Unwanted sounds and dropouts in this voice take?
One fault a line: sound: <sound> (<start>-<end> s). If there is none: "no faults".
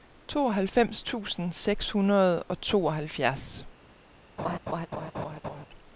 sound: laugh (4.4-5.7 s)